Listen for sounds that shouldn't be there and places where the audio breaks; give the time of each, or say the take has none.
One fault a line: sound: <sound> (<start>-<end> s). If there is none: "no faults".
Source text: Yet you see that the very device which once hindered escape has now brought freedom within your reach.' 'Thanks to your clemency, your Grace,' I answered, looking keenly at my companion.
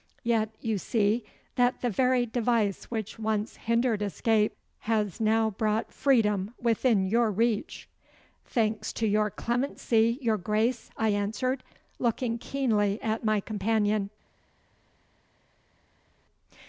no faults